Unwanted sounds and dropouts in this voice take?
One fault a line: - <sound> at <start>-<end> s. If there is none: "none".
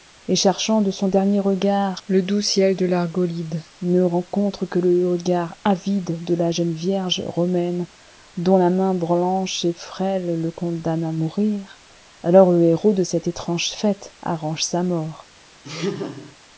- laugh at 15.6-16.4 s